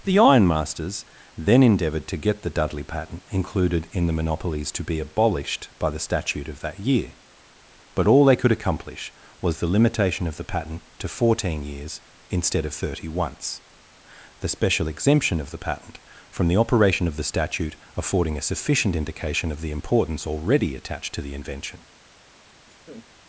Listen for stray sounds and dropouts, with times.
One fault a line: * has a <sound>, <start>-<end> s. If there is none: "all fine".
* has a laugh, 22.6-23.1 s